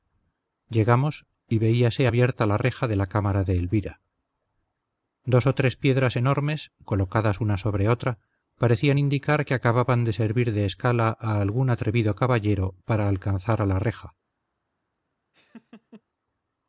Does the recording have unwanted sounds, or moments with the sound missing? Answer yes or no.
yes